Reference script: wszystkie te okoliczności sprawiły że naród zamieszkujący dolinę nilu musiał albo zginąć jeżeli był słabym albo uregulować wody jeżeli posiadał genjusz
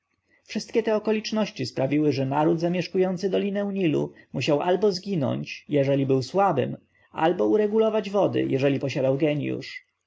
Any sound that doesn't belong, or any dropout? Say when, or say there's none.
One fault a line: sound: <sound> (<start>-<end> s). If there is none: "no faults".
no faults